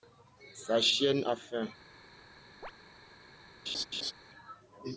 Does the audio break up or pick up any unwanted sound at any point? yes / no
yes